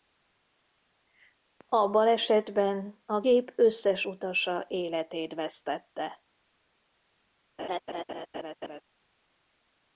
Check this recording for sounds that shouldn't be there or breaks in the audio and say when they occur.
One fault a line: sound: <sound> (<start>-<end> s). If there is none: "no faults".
sound: laugh (7.6-8.8 s)